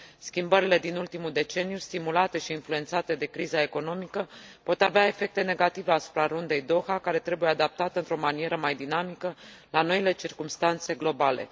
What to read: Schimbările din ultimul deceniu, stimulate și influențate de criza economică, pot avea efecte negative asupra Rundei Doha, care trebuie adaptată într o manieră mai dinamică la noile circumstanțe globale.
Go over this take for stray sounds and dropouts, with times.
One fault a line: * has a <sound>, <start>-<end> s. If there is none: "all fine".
all fine